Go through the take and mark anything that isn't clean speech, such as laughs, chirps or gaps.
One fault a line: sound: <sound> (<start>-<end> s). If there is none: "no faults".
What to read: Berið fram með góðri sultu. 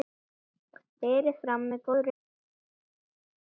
no faults